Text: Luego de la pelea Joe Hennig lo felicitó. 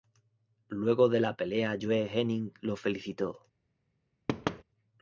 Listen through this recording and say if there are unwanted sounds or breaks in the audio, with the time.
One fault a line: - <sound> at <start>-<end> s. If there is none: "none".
- thud at 4.3-4.6 s